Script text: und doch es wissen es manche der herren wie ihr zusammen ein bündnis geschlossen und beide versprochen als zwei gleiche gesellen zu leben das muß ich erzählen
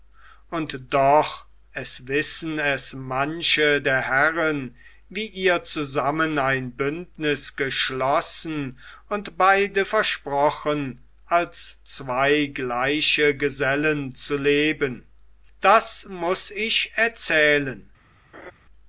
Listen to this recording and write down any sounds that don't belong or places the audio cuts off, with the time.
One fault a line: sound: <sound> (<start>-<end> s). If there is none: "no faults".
sound: laugh (18.3-18.5 s)